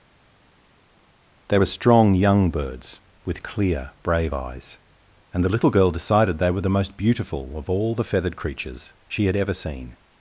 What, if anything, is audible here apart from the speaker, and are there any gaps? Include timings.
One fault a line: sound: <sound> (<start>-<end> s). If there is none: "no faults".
no faults